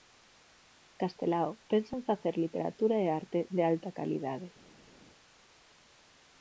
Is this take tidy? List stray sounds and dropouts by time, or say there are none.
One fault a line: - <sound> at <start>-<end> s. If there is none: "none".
none